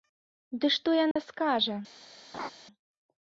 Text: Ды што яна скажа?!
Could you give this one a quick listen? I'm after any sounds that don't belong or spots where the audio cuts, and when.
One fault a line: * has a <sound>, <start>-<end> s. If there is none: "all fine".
* has a dropout, 1.1-1.2 s
* has a laugh, 2.3-2.5 s